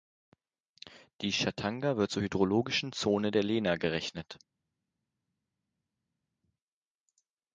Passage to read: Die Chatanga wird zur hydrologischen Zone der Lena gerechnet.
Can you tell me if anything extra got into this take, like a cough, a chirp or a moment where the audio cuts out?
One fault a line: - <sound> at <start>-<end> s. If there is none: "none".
none